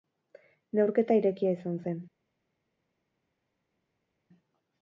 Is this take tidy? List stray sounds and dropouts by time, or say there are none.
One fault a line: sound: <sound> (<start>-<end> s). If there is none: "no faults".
no faults